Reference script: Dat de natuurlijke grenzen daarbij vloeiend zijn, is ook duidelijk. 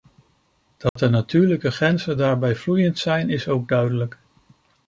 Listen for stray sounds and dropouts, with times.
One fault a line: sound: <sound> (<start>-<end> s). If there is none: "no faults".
sound: dropout (0.9-1.0 s)